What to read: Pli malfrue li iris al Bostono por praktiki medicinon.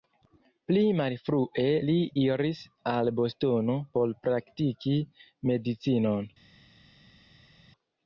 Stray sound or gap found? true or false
false